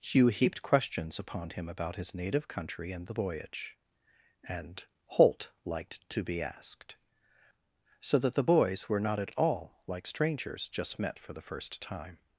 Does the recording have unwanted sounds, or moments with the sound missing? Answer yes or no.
no